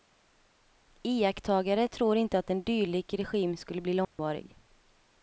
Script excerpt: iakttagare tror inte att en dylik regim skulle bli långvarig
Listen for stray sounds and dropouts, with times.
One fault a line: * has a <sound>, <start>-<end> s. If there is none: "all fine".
* has a dropout, 4.0-4.2 s